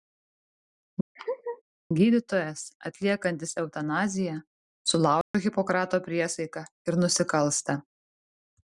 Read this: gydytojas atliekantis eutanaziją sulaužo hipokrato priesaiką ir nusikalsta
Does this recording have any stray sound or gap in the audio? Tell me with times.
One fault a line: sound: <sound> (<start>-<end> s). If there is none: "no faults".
sound: laugh (1.2-1.6 s)
sound: dropout (5.2-5.3 s)